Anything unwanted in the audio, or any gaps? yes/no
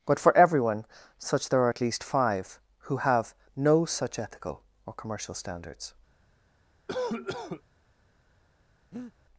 yes